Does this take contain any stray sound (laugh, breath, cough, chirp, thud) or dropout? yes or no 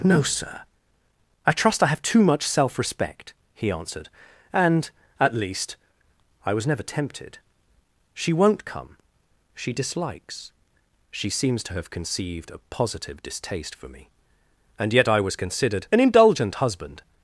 no